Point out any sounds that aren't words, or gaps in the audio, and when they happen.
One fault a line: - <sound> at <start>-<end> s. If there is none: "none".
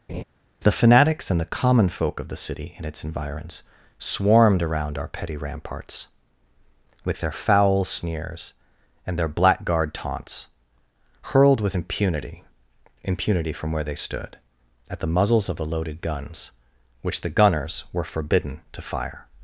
- laugh at 0.1-0.2 s